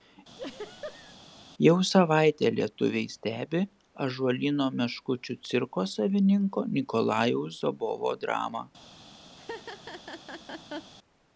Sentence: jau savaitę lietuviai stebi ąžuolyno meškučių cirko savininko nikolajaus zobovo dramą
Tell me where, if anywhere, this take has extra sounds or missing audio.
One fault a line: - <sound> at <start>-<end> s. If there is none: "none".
- laugh at 0.4-1.2 s
- laugh at 9.4-10.9 s